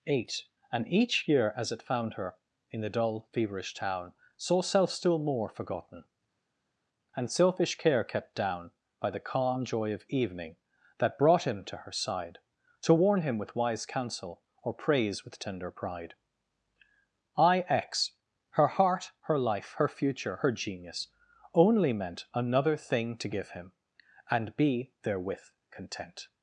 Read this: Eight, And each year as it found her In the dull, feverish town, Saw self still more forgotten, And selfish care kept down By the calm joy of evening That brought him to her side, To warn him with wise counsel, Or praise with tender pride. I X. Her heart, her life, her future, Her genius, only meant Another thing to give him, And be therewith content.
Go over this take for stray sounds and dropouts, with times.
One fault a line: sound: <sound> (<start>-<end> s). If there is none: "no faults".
no faults